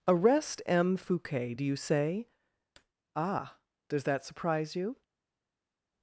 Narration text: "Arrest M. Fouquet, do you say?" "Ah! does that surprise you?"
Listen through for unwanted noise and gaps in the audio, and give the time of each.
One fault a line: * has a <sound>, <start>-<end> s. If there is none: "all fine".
all fine